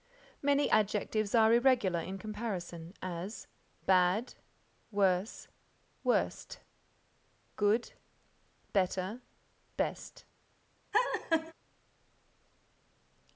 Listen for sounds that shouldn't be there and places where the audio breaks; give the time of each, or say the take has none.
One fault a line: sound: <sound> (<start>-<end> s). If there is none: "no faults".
sound: laugh (10.9-11.5 s)